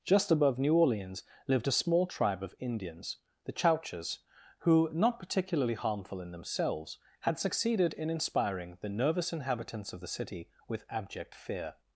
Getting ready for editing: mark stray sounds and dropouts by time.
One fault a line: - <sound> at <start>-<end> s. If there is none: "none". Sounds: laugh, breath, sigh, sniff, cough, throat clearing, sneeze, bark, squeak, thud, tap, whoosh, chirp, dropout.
none